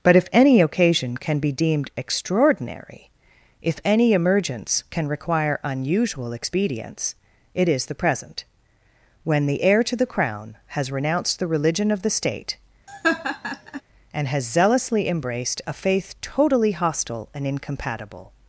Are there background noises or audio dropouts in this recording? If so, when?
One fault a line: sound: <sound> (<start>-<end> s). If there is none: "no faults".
sound: laugh (12.9-13.8 s)